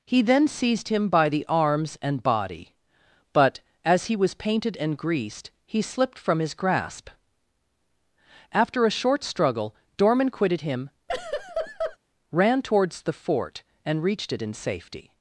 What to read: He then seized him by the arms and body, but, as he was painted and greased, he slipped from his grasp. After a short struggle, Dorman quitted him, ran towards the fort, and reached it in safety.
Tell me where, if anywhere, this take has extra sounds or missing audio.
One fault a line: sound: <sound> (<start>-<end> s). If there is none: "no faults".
sound: laugh (11.1-12.0 s)